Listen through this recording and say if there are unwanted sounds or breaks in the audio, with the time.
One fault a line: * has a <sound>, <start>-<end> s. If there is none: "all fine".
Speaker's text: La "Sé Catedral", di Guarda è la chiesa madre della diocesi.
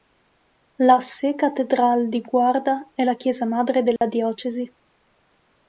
* has a dropout, 4.0-4.0 s